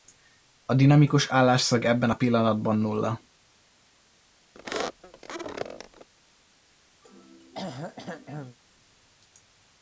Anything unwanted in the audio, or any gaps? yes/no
yes